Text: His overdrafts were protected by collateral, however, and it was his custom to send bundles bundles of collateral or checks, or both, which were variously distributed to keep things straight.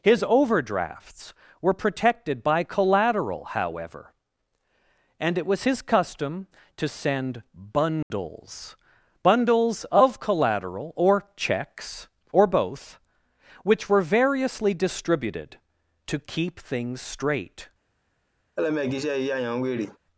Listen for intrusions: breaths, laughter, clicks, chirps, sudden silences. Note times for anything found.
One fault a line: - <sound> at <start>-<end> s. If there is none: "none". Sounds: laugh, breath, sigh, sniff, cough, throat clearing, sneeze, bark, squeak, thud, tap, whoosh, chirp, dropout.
- dropout at 8.0-8.1 s
- laugh at 18.6-20.0 s